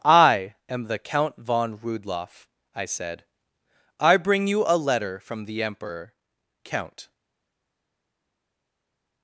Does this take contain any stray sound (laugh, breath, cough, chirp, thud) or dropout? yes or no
no